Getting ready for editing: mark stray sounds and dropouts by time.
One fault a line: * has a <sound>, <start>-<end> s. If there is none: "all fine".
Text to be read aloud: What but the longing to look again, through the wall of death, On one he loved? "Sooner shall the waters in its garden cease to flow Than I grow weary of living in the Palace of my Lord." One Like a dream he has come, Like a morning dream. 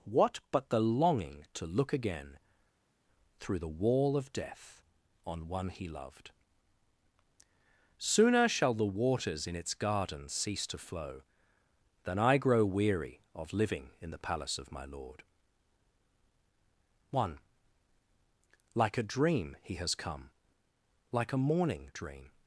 all fine